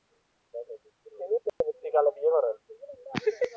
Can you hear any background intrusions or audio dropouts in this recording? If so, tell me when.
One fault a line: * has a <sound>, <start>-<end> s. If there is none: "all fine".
* has a dropout, 1.5-1.6 s